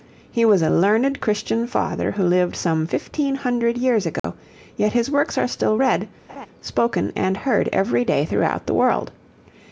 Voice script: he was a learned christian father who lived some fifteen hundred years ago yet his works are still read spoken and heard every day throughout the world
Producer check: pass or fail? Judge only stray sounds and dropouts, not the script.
fail